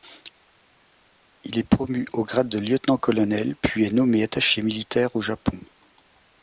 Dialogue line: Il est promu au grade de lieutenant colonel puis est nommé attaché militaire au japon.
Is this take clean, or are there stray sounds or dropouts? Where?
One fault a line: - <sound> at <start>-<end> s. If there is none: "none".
none